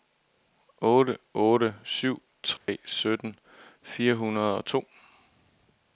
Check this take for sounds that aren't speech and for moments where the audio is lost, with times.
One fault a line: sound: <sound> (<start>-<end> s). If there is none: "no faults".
sound: dropout (2.6-2.7 s)